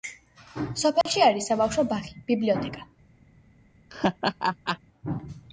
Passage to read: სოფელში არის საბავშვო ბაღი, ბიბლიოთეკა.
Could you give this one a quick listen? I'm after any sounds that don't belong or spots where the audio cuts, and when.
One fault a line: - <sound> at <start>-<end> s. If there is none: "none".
- dropout at 1.0-1.1 s
- laugh at 3.9-4.8 s